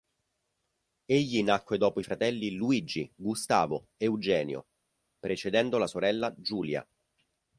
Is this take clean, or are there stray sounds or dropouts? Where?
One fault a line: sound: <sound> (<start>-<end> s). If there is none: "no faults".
no faults